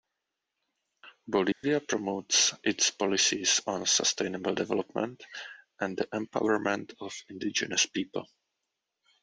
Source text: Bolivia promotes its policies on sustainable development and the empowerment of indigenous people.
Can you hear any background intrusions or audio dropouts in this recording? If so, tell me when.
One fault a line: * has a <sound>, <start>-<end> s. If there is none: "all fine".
* has a dropout, 1.5-1.6 s